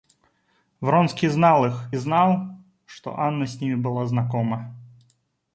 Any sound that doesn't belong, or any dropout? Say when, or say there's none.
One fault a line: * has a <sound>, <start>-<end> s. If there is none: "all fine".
all fine